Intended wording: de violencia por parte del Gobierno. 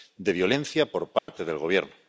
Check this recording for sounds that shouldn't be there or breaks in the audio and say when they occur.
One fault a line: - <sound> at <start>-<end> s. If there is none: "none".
- dropout at 1.2-1.3 s